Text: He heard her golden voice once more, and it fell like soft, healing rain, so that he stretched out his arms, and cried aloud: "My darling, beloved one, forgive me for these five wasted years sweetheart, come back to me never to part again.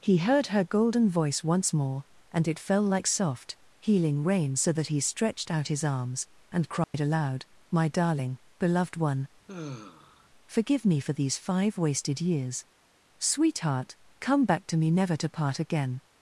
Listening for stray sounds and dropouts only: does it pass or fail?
fail